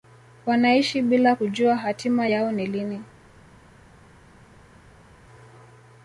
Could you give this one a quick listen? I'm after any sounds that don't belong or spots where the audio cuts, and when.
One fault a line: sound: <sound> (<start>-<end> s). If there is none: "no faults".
no faults